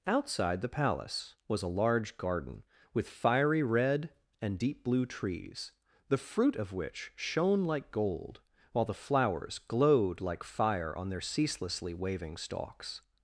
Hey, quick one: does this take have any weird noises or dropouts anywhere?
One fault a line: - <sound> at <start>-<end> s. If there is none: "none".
none